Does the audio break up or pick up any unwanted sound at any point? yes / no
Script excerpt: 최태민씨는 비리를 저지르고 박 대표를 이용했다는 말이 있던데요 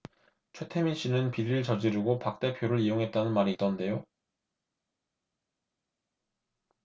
no